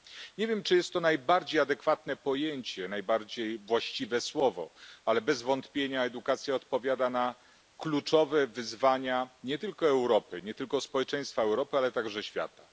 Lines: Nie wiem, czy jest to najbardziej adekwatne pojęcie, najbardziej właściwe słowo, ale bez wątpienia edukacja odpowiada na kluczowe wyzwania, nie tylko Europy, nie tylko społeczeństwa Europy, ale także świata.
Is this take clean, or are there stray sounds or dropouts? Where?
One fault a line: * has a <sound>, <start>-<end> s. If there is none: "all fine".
all fine